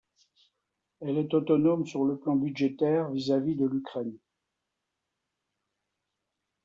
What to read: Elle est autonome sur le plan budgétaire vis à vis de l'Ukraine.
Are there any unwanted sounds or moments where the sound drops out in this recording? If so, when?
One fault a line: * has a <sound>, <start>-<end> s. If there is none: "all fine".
all fine